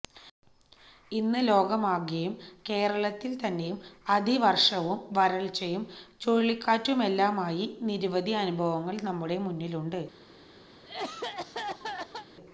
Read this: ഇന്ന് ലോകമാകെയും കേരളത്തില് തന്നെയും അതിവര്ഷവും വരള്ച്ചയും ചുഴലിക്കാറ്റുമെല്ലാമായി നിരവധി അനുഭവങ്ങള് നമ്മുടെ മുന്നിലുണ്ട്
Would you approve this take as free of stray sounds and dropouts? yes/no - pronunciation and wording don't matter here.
no